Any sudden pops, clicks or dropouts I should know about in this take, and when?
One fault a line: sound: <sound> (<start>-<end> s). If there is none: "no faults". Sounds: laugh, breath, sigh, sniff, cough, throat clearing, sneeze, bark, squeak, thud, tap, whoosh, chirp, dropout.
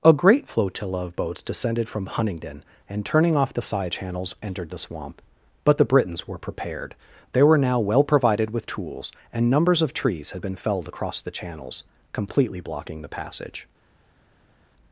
no faults